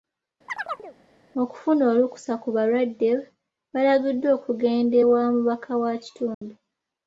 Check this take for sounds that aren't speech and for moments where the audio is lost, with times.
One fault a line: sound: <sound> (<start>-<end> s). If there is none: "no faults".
sound: chirp (0.5-1.0 s)
sound: dropout (6.3-6.4 s)